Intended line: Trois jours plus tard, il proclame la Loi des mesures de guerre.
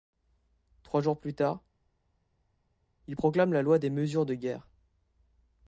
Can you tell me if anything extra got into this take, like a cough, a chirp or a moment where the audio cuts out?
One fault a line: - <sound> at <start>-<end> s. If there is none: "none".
none